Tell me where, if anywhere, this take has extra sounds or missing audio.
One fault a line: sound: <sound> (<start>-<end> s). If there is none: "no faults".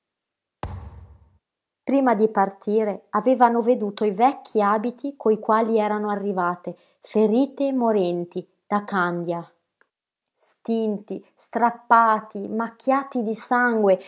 sound: thud (0.6-1.4 s)